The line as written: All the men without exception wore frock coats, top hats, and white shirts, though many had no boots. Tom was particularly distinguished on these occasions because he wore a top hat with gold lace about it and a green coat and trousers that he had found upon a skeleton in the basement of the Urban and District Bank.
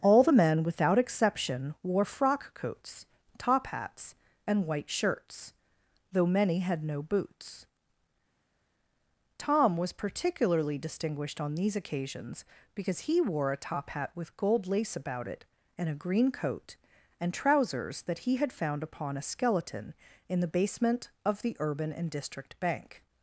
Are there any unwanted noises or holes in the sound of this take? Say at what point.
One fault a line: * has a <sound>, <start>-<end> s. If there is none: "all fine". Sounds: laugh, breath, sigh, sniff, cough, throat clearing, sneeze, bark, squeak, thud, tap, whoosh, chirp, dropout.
all fine